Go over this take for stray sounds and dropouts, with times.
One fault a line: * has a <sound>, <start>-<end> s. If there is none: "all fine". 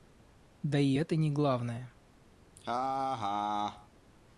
* has a laugh, 2.6-3.9 s